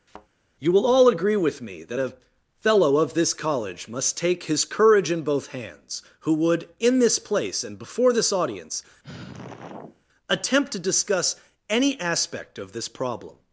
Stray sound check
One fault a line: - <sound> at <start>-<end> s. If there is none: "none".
- thud at 0.1-0.3 s
- sigh at 9.0-10.0 s